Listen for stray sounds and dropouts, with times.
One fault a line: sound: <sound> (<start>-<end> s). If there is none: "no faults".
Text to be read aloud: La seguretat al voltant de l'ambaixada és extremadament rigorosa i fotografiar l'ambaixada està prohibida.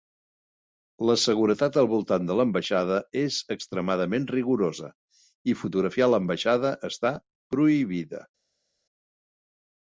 no faults